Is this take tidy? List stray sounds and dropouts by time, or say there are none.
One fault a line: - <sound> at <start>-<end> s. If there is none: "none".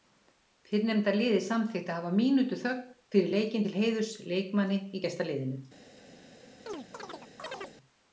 - chirp at 6.7-7.8 s